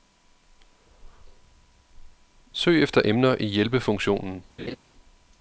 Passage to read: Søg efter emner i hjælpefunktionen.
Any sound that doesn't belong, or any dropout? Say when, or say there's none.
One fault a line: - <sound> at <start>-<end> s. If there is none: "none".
- laugh at 4.6-4.8 s